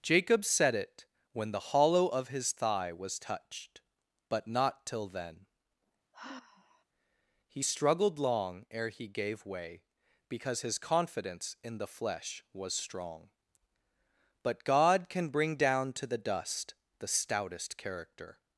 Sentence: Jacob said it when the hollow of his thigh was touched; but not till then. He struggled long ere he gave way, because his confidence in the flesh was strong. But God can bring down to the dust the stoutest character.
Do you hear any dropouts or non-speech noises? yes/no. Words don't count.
yes